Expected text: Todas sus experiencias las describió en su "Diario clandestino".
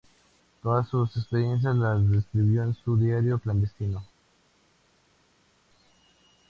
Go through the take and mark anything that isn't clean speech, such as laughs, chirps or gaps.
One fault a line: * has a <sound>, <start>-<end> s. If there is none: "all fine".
all fine